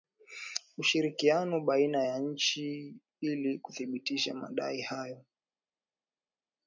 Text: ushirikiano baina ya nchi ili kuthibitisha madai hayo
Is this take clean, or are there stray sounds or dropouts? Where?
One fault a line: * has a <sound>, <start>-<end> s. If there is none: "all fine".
all fine